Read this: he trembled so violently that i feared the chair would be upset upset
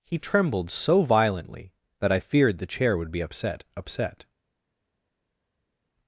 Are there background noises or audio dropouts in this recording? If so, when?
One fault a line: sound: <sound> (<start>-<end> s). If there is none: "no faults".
no faults